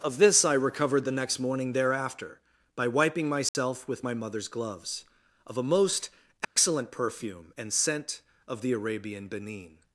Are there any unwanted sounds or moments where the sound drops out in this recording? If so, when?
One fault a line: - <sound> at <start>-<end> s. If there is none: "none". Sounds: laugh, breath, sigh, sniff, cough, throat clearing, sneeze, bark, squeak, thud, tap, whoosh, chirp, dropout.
- dropout at 3.5-3.5 s
- dropout at 6.4-6.6 s